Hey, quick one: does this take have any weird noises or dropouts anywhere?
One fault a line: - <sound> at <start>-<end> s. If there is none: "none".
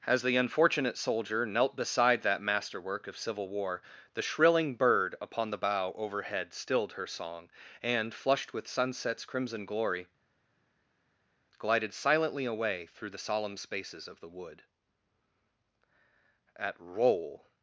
none